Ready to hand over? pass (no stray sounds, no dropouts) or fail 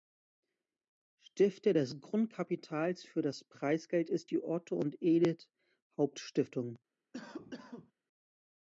fail